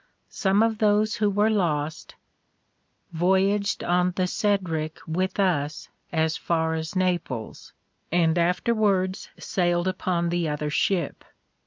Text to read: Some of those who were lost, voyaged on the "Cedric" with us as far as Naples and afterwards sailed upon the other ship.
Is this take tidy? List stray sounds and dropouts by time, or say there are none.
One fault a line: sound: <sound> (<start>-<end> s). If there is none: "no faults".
no faults